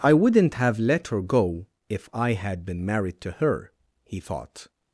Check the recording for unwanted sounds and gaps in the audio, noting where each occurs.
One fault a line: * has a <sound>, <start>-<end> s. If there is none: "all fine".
all fine